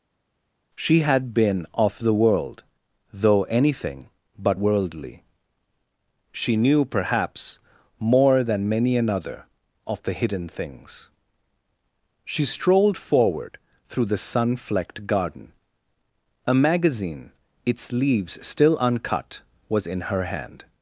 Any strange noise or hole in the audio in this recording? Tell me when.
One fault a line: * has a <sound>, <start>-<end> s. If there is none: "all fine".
all fine